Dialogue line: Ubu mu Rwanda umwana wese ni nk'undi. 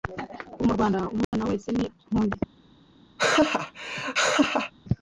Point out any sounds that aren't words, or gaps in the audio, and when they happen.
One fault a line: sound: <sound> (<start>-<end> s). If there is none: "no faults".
sound: dropout (1.2-1.3 s)
sound: laugh (3.2-4.7 s)